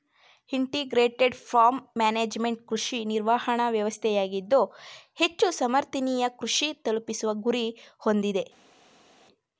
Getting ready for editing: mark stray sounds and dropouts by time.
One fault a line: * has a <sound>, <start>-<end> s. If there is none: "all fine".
all fine